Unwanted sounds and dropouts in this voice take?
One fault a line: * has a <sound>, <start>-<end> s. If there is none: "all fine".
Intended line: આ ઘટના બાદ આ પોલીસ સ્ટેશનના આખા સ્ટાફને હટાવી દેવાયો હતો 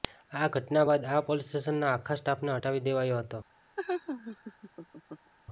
* has a laugh, 3.8-5.3 s